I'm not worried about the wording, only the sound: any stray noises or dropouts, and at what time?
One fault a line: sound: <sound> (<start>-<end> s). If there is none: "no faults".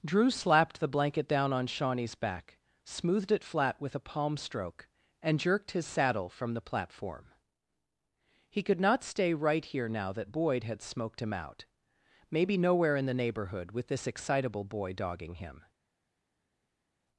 no faults